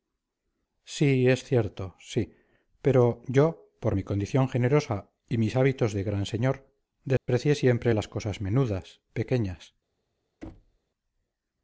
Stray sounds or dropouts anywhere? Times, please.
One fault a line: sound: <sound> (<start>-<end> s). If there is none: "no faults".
sound: dropout (7.2-7.3 s)
sound: thud (10.4-10.8 s)